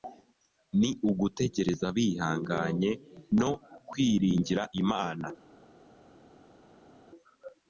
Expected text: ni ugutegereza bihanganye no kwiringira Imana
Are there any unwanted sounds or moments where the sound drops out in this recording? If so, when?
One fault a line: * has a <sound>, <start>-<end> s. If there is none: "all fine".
all fine